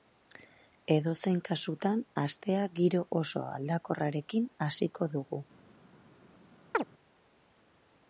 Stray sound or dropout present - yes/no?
yes